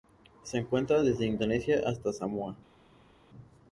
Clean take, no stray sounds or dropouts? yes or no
yes